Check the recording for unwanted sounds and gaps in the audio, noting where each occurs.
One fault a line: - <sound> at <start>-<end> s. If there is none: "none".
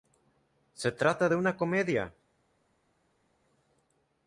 none